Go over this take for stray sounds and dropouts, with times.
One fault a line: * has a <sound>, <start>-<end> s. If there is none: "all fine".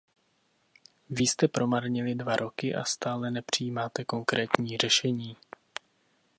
all fine